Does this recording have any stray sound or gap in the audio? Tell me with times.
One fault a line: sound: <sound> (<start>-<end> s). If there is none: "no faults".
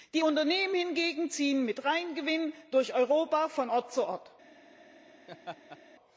sound: laugh (5.3-5.8 s)